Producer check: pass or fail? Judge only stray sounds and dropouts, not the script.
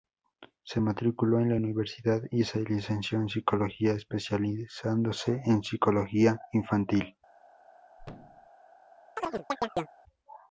fail